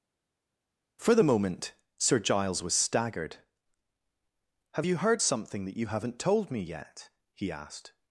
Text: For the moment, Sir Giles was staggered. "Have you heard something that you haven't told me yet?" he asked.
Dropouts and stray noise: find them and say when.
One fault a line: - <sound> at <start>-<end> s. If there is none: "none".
none